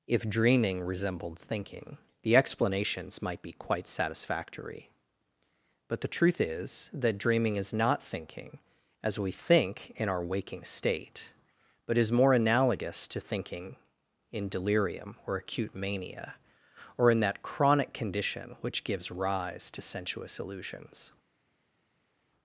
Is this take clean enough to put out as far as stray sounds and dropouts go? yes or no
yes